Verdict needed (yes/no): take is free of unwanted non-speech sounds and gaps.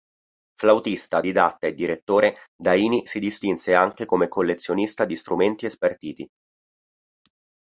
yes